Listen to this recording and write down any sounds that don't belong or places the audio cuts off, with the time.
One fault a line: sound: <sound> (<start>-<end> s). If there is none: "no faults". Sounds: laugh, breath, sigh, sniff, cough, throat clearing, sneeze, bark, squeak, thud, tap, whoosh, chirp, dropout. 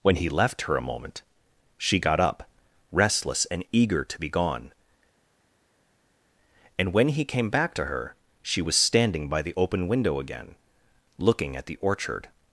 no faults